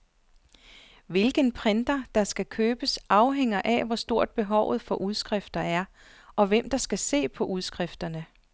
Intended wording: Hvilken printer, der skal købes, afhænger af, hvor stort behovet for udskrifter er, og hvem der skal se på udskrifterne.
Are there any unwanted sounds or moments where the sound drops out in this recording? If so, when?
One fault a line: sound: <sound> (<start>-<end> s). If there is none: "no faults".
no faults